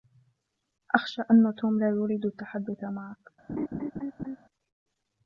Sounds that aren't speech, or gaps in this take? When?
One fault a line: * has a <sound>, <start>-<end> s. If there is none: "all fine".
* has a laugh, 3.5-4.4 s